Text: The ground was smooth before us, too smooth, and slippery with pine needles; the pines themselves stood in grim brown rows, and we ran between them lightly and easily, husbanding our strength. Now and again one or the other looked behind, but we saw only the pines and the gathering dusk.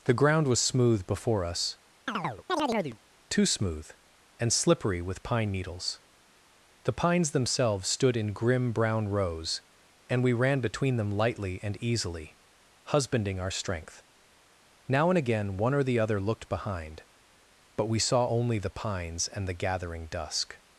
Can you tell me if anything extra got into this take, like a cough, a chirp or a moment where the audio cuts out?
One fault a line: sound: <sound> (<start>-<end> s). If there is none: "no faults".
sound: chirp (2.1-3.0 s)